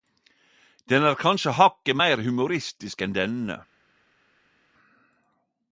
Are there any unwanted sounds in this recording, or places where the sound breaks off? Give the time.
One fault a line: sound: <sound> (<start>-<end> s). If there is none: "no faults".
no faults